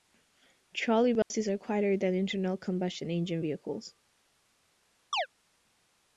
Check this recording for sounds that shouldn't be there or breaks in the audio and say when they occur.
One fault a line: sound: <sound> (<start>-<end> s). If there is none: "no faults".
sound: dropout (1.2-1.3 s)
sound: chirp (5.1-5.3 s)